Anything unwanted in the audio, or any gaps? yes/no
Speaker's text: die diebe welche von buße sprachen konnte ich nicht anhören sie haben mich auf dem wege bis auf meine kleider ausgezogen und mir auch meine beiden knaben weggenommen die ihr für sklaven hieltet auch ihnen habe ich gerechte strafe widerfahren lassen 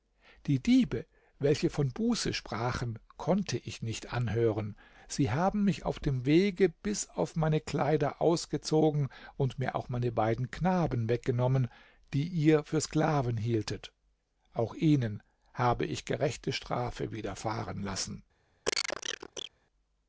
yes